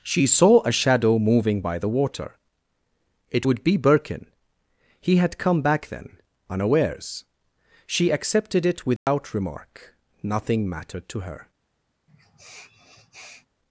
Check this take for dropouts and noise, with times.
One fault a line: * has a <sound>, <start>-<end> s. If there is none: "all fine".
* has a dropout, 9.0-9.1 s
* has a sniff, 12.1-13.5 s